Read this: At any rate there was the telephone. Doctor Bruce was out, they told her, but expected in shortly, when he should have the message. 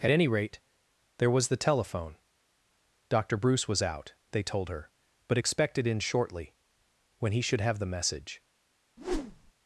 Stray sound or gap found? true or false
true